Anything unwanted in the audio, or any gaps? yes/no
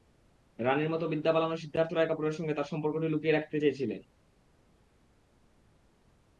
no